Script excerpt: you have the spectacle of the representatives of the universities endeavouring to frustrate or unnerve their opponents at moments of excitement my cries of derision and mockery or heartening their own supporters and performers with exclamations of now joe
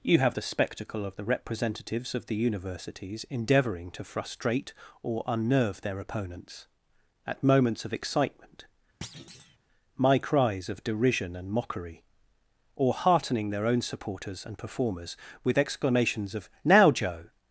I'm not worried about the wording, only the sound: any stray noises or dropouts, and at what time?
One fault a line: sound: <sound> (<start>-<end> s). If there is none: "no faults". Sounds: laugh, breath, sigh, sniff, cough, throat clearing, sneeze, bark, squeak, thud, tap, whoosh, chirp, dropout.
sound: thud (9.0-9.6 s)